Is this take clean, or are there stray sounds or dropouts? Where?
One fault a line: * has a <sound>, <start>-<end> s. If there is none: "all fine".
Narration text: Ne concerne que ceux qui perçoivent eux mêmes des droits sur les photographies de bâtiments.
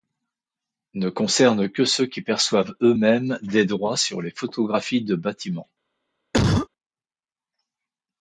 * has a cough, 6.3-6.7 s